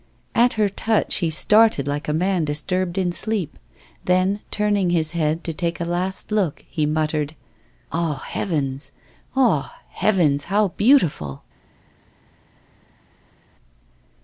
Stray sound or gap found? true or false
false